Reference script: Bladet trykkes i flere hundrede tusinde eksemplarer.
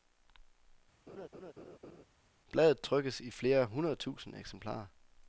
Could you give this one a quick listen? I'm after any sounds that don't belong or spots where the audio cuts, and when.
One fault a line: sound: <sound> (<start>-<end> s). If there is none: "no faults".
sound: laugh (1.1-2.1 s)